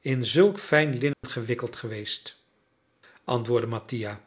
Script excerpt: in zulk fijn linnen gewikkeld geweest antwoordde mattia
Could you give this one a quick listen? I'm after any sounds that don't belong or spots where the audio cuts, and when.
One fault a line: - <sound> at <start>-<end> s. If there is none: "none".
- dropout at 1.1-1.2 s